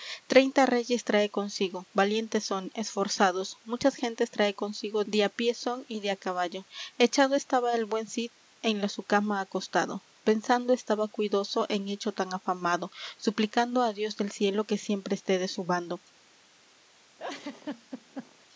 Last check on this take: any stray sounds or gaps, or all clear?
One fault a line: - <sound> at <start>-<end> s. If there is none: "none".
- laugh at 17.2-18.5 s